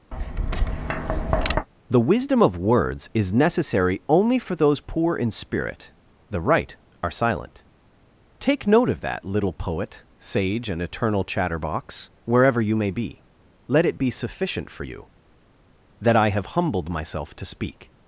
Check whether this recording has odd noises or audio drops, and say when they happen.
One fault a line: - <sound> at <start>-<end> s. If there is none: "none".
- tap at 0.1-1.7 s